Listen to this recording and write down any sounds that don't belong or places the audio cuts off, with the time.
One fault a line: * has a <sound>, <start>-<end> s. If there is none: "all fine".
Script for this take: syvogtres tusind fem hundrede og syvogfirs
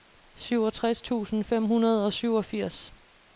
all fine